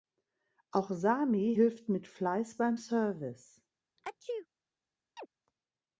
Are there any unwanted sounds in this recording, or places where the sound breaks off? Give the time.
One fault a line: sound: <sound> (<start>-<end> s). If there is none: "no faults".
sound: sneeze (4.0-4.5 s)
sound: chirp (5.2-5.3 s)